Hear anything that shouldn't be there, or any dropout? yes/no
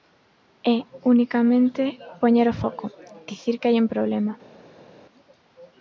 no